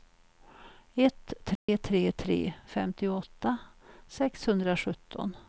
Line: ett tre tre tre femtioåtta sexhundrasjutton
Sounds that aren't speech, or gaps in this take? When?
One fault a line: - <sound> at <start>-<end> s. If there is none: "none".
- dropout at 1.6-1.7 s